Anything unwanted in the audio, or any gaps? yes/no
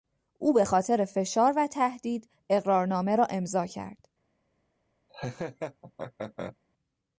yes